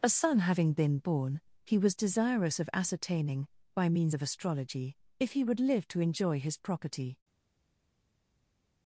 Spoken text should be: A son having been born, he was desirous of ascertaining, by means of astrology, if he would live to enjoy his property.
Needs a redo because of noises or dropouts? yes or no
no